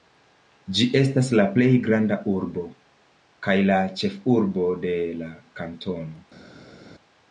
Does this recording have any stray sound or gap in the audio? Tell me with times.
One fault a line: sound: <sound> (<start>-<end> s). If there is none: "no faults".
no faults